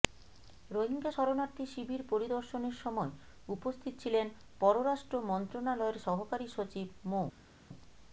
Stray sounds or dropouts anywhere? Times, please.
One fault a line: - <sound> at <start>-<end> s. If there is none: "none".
none